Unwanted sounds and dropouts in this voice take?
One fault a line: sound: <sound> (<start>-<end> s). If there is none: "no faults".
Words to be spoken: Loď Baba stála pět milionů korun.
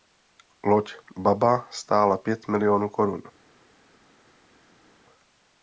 no faults